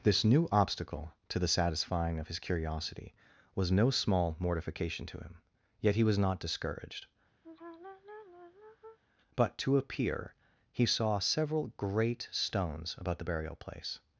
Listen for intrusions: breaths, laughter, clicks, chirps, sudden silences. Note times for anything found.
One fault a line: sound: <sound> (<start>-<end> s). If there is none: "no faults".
sound: sigh (7.4-9.0 s)